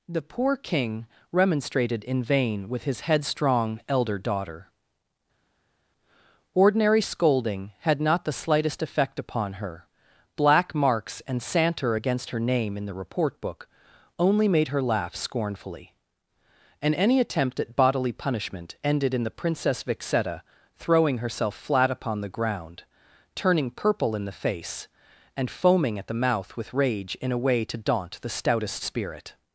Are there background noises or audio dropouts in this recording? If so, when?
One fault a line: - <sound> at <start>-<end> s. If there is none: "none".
none